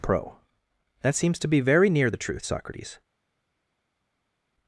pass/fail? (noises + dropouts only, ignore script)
pass